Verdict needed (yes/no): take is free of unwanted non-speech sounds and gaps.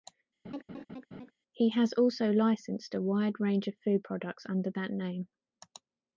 no